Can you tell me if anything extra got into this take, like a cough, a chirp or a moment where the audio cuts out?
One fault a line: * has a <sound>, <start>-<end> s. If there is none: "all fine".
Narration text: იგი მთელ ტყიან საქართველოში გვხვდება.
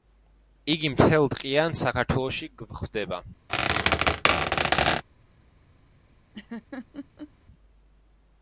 * has a squeak, 3.5-5.0 s
* has a laugh, 6.3-7.3 s